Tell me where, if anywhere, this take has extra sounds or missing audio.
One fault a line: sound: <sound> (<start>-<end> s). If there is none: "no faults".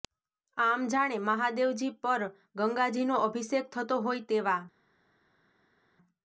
no faults